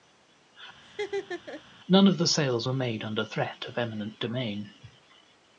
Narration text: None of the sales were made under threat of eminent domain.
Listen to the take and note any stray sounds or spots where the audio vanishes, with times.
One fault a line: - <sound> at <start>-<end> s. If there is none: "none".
- laugh at 0.8-1.6 s